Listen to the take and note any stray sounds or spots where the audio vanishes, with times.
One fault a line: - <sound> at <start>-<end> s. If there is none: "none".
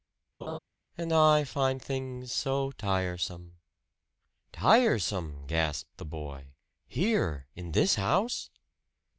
- laugh at 0.4-0.6 s